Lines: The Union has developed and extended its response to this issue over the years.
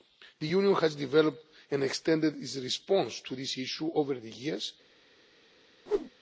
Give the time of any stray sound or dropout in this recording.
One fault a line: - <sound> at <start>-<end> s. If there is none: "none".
- whoosh at 5.9-6.1 s